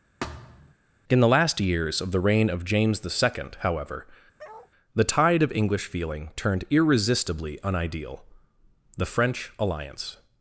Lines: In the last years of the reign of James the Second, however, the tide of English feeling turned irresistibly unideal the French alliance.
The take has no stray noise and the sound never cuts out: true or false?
false